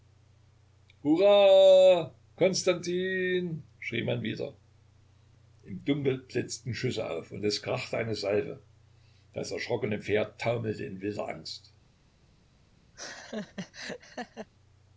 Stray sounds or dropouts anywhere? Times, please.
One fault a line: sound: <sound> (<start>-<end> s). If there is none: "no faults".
sound: laugh (12.9-14.5 s)